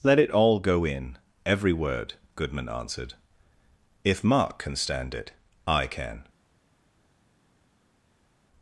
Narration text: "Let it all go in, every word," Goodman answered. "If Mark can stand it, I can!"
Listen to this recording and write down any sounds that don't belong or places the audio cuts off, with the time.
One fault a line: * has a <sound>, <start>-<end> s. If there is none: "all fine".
all fine